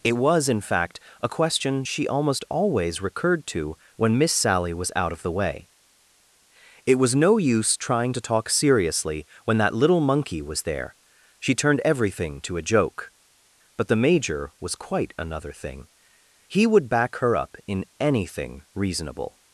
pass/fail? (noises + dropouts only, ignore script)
pass